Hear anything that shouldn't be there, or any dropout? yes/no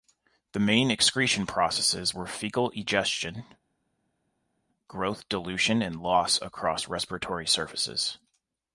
no